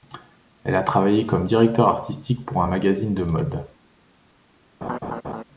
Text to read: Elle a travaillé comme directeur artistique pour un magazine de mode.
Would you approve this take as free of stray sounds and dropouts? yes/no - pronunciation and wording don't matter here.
no